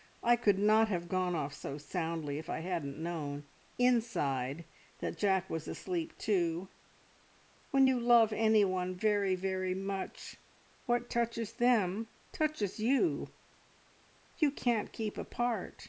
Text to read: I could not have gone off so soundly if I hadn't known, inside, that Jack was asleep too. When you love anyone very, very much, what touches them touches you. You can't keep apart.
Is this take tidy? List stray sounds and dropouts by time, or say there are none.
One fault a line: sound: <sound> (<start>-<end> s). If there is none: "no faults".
no faults